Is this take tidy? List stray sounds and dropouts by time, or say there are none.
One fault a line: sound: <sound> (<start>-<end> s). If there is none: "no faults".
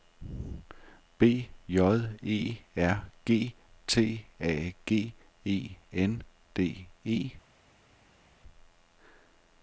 no faults